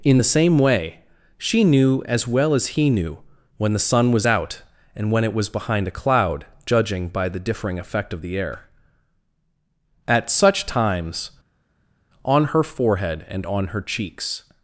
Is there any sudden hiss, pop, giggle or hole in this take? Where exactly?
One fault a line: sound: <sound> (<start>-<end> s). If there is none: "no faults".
no faults